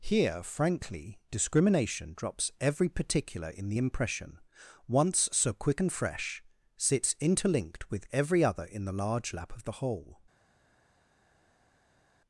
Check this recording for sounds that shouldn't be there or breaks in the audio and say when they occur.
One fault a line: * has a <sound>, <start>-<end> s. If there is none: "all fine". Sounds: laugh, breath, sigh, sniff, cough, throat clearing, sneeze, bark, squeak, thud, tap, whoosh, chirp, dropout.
all fine